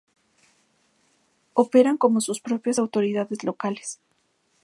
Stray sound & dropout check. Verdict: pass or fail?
pass